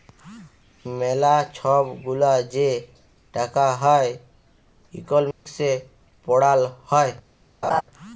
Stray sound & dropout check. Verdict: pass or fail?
fail